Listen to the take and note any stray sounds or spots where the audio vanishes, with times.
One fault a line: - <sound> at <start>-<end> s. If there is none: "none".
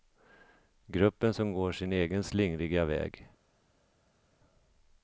none